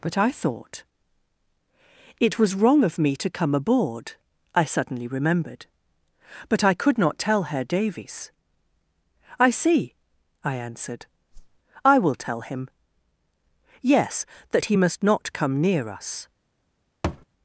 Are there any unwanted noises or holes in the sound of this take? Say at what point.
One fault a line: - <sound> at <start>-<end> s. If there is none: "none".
- whoosh at 11.3-11.6 s
- thud at 17.0-17.3 s